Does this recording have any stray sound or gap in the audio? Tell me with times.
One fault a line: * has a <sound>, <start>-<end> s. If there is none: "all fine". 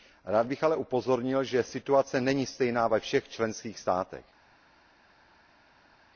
all fine